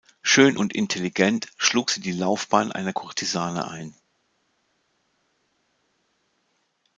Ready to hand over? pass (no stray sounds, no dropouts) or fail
pass